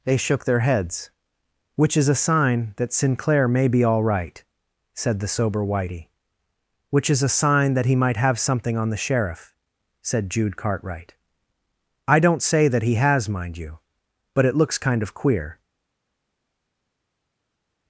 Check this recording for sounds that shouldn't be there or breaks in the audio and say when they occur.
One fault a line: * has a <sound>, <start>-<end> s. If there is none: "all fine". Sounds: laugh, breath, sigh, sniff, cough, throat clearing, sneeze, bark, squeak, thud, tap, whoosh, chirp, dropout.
all fine